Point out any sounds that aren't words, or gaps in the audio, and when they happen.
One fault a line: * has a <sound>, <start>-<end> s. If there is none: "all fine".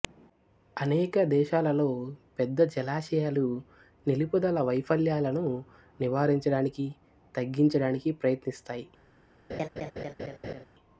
* has a laugh, 9.5-10.7 s